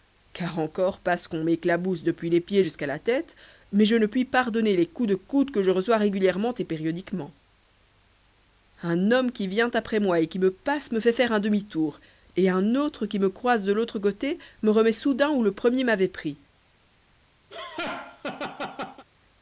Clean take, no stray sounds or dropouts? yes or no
no